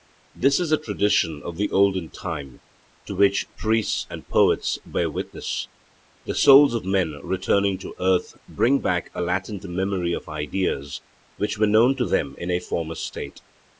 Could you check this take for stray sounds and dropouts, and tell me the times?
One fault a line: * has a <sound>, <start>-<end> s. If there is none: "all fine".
all fine